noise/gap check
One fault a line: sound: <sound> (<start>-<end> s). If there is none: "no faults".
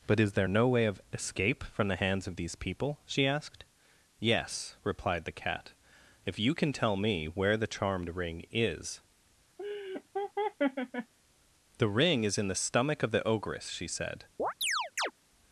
sound: laugh (9.6-11.1 s)
sound: chirp (14.4-15.1 s)